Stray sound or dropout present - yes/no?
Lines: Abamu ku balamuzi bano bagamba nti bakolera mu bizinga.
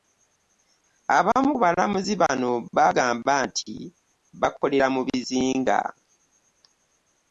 no